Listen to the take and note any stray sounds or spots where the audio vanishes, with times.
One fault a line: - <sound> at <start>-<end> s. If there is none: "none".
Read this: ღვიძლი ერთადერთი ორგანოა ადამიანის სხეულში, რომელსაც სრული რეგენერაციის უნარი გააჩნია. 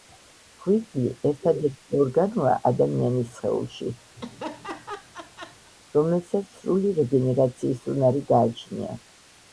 - laugh at 4.2-5.7 s